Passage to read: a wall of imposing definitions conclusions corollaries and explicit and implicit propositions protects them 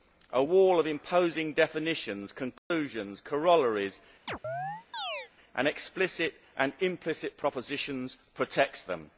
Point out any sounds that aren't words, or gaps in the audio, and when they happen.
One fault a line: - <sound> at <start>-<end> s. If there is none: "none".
- dropout at 2.6-2.7 s
- chirp at 4.3-5.3 s